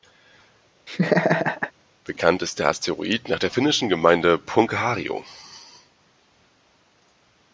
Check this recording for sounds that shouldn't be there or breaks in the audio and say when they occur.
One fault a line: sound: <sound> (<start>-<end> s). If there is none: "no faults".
sound: laugh (0.9-1.7 s)